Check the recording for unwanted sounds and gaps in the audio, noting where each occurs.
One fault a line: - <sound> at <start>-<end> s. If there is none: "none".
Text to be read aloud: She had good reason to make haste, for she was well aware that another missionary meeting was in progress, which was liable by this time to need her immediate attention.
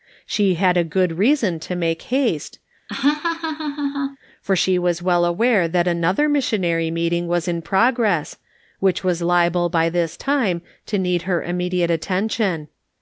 - laugh at 2.9-4.2 s